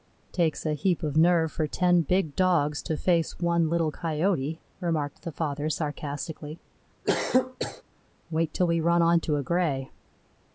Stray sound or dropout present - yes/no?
yes